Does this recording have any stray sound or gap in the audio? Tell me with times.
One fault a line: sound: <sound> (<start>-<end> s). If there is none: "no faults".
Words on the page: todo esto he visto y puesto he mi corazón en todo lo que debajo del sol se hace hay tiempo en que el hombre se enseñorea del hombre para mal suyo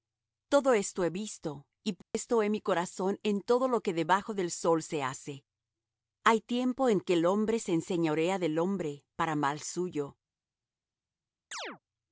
sound: dropout (2.0-2.1 s)
sound: chirp (11.5-11.8 s)